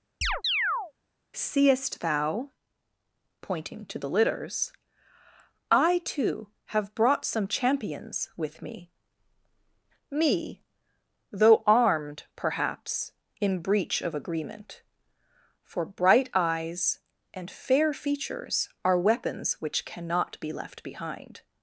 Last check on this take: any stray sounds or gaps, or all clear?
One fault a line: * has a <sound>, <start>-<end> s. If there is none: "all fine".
* has a chirp, 0.2-0.9 s